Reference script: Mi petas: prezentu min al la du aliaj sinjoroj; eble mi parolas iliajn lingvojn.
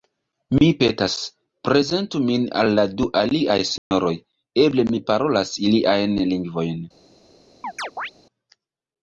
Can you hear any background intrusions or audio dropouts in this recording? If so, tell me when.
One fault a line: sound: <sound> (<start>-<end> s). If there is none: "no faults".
sound: dropout (3.8-3.9 s)
sound: chirp (7.6-8.1 s)